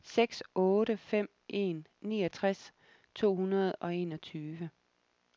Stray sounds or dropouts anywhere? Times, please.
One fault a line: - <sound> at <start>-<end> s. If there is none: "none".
none